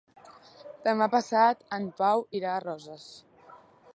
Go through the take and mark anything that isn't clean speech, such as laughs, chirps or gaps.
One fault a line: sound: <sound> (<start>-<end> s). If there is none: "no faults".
no faults